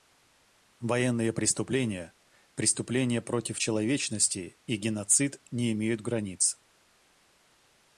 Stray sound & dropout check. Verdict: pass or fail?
pass